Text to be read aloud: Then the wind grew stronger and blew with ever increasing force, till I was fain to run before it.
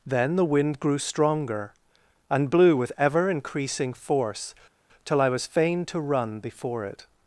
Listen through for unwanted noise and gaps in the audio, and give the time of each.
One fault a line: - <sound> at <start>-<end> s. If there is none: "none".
none